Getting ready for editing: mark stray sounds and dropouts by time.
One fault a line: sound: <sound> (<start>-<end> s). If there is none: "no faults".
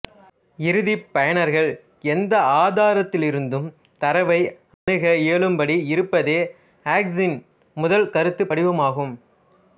sound: dropout (4.7-4.9 s)